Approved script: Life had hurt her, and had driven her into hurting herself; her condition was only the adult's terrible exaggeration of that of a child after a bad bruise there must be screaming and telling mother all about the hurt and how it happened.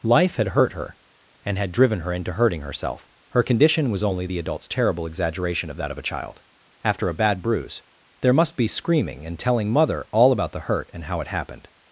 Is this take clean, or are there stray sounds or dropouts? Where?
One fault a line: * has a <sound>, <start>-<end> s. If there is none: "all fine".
all fine